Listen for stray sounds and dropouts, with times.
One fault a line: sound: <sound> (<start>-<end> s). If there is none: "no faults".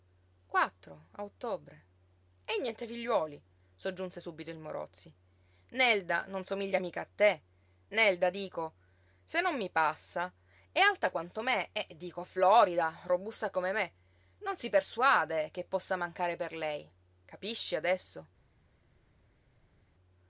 no faults